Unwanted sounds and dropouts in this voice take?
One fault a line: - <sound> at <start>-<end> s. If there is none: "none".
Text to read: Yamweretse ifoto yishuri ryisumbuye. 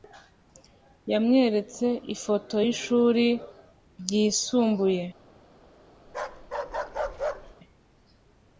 - bark at 6.1-7.6 s